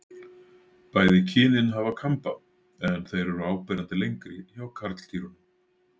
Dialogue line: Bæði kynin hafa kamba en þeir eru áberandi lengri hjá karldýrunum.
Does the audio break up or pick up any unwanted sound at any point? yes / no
no